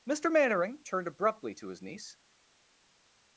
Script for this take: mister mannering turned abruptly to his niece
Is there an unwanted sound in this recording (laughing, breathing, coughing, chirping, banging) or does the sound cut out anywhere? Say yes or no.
no